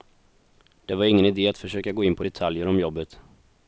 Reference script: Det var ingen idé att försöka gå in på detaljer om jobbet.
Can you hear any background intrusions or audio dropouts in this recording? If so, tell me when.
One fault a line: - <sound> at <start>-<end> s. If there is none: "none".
none